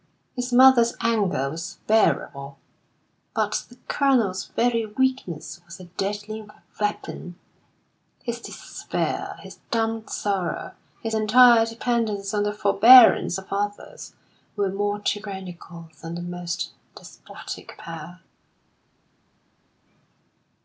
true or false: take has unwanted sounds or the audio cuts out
false